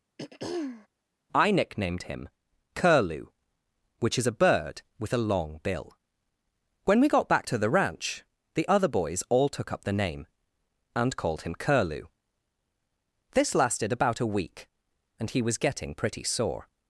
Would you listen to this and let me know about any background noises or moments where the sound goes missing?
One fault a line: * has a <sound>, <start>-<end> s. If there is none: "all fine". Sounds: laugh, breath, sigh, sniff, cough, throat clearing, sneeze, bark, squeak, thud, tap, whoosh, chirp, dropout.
* has a throat clearing, 0.2-0.9 s